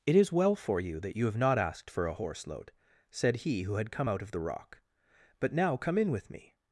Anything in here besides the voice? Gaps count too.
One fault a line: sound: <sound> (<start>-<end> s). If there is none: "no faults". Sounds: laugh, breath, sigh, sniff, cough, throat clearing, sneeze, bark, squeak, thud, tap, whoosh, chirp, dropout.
no faults